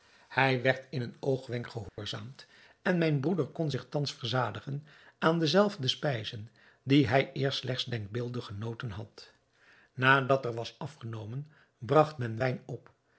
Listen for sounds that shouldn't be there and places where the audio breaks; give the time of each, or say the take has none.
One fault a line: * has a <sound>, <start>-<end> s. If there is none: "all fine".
* has a dropout, 1.9-2.0 s